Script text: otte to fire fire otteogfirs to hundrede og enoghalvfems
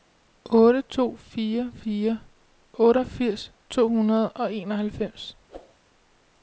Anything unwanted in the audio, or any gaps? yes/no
yes